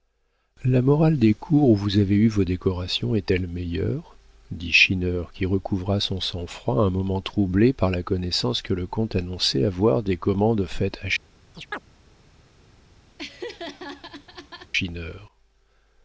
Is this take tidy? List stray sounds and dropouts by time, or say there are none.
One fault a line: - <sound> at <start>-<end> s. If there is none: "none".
- chirp at 11.5-11.8 s
- laugh at 13.2-14.7 s